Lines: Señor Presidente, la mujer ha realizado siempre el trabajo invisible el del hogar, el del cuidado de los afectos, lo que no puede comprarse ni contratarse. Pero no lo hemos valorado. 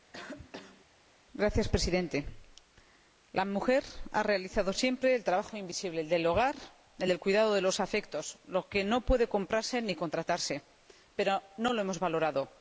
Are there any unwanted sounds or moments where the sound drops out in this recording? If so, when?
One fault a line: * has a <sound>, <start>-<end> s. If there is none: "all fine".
* has a cough, 0.1-0.9 s